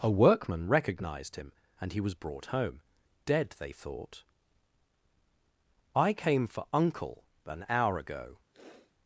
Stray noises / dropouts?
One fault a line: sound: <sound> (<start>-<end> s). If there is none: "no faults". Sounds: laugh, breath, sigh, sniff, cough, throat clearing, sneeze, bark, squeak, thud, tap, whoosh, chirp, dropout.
sound: sniff (8.5-8.9 s)